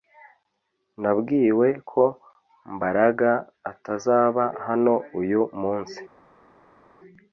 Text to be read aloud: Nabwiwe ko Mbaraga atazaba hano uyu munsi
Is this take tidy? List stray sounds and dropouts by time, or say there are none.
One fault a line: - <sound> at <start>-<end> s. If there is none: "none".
none